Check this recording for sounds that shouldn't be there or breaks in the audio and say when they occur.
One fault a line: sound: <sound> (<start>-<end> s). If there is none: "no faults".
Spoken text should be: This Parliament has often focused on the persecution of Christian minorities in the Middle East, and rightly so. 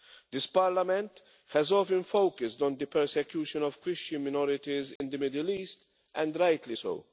sound: dropout (5.0-5.0 s)